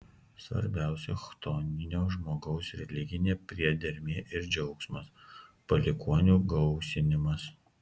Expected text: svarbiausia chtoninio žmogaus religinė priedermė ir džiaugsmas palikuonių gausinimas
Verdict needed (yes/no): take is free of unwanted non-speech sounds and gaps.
yes